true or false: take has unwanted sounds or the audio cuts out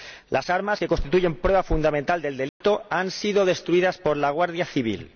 true